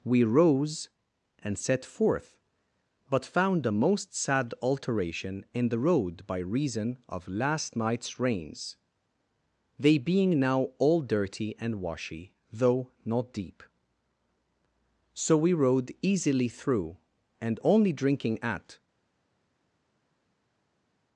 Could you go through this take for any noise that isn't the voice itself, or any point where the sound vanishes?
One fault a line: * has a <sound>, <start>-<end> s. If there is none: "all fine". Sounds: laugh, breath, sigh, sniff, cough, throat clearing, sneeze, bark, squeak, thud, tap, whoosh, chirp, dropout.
all fine